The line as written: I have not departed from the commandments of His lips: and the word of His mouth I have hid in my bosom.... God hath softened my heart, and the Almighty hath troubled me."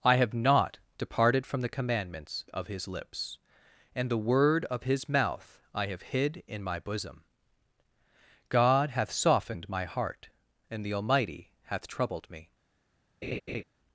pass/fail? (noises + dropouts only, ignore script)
fail